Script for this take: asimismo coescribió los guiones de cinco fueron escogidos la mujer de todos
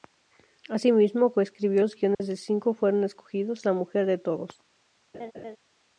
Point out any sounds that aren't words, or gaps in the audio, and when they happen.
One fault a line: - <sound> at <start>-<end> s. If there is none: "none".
- dropout at 2.1-2.2 s
- laugh at 5.1-5.6 s